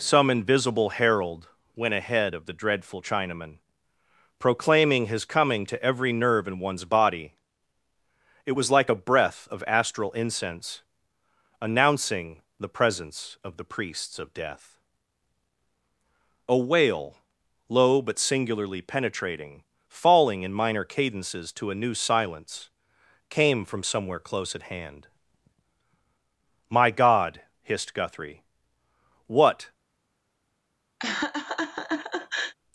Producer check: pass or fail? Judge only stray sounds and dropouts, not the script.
fail